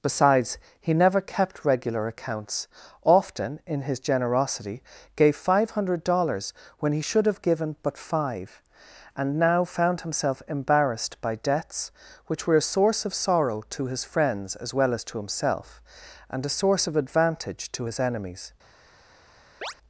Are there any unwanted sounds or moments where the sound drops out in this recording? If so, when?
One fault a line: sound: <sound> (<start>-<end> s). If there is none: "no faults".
sound: chirp (19.6-19.7 s)